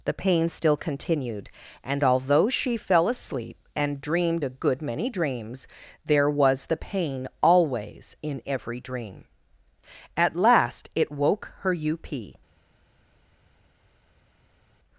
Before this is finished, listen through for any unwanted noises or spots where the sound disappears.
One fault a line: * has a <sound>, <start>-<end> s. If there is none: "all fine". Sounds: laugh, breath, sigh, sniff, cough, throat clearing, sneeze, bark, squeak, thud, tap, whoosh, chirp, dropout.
all fine